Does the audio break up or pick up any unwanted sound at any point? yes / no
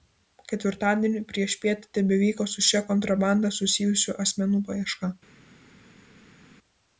no